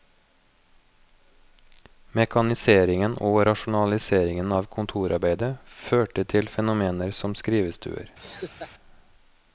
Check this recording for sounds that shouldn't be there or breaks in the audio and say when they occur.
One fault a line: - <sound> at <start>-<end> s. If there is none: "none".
- laugh at 8.2-8.7 s